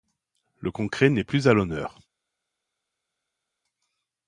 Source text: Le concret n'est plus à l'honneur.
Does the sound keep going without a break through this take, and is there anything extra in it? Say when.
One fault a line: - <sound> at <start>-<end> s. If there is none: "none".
none